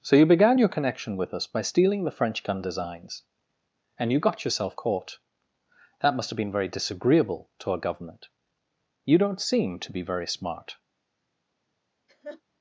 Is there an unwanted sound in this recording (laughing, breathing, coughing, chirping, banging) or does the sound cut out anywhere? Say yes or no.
yes